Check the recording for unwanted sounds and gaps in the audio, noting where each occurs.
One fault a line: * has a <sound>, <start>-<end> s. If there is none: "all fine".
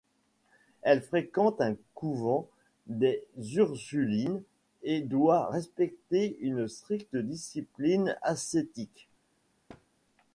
* has a thud, 9.7-9.9 s